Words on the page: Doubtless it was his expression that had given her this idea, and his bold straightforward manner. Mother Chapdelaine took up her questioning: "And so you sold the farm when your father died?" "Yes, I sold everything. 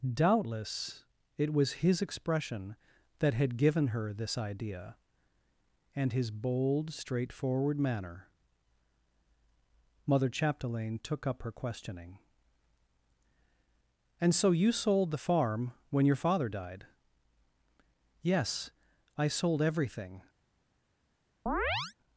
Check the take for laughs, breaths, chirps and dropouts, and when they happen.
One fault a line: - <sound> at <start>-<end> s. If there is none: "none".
- chirp at 21.5-21.9 s